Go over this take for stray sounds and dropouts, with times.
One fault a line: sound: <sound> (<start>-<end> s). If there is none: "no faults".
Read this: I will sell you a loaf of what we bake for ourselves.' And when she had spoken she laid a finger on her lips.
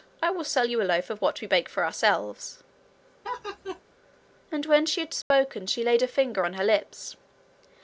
sound: laugh (3.2-3.8 s)
sound: dropout (5.2-5.3 s)